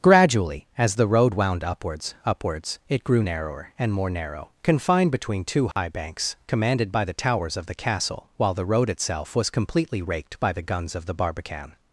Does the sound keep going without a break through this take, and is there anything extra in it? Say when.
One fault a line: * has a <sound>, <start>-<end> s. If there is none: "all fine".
* has a dropout, 5.7-5.8 s